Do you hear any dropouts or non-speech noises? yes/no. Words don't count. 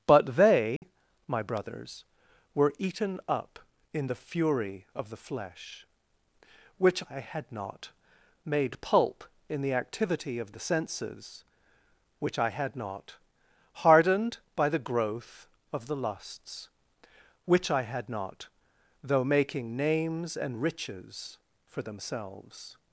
yes